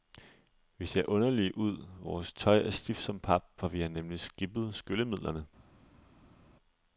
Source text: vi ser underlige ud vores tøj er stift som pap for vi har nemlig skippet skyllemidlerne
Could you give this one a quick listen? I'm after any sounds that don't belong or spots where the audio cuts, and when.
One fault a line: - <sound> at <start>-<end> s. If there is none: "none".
none